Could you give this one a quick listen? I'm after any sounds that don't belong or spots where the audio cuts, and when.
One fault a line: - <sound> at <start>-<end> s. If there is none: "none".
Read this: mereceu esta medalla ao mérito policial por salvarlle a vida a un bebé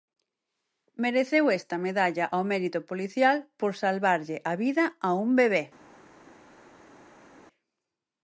none